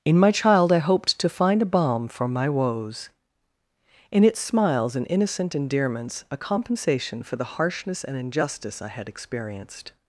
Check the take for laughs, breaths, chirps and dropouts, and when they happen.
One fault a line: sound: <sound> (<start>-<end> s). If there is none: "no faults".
no faults